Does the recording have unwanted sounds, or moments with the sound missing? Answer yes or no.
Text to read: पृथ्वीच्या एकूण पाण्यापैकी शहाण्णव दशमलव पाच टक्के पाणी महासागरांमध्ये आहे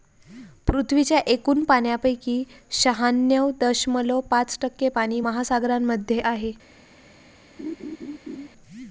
yes